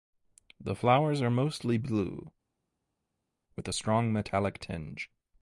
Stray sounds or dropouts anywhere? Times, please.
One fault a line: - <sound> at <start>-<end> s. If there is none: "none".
none